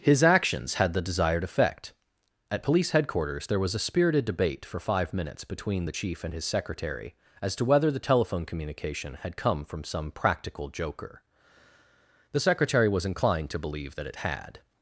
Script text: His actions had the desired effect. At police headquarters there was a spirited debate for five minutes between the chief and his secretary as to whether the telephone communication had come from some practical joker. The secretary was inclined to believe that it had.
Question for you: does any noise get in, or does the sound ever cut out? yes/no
no